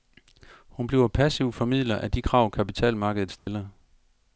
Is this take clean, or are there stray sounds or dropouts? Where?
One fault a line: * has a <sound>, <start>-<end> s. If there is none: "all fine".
* has a dropout, 3.4-3.5 s